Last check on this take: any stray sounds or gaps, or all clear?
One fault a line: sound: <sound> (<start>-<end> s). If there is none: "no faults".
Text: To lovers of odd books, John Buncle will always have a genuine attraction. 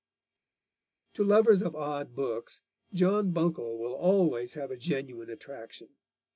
no faults